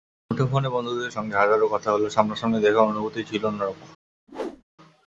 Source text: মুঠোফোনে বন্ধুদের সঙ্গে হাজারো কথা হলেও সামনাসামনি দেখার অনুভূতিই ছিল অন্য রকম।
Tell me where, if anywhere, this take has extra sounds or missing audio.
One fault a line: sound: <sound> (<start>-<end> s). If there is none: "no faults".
sound: whoosh (4.3-4.6 s)